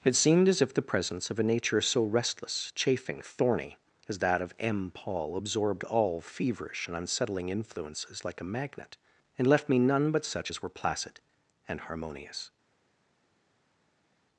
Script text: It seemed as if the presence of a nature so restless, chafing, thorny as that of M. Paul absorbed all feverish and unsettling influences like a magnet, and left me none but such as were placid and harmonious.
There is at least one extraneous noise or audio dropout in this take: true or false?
false